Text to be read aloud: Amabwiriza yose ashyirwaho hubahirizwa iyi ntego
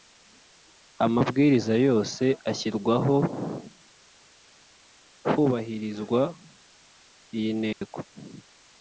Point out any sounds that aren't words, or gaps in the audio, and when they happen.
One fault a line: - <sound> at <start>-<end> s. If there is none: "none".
- dropout at 7.7-7.8 s